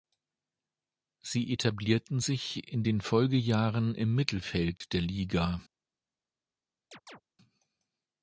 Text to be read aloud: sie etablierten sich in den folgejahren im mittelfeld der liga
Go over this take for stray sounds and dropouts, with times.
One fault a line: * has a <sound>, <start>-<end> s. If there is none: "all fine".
* has a dropout, 4.8-4.8 s
* has a chirp, 6.9-7.2 s